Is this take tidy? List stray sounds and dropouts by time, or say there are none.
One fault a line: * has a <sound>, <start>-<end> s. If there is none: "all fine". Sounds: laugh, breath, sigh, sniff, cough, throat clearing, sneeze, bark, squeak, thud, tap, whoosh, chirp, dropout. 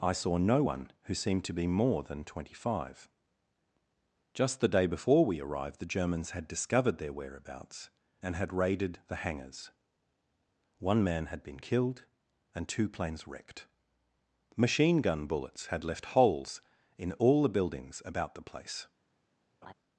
* has a laugh, 19.6-19.7 s